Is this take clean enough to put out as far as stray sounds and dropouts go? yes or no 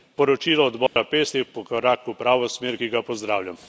no